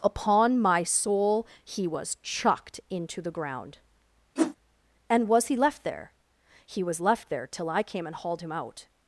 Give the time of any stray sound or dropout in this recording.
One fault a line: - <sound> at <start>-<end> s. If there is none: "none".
- whoosh at 4.4-4.6 s